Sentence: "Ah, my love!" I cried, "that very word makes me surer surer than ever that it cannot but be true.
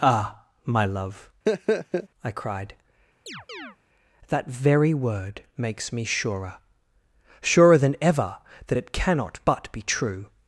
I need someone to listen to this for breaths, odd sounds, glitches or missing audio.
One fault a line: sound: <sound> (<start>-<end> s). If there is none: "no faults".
sound: laugh (1.5-2.1 s)
sound: chirp (3.3-3.8 s)